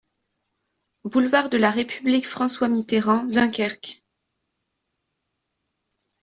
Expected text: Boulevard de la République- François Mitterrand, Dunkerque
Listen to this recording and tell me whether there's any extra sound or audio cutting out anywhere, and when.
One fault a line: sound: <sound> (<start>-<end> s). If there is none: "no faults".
no faults